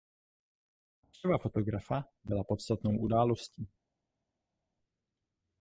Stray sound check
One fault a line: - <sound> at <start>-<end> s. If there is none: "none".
none